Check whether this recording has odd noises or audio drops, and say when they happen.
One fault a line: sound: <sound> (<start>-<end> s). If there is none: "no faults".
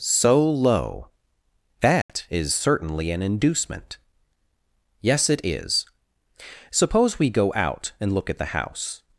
sound: dropout (2.0-2.1 s)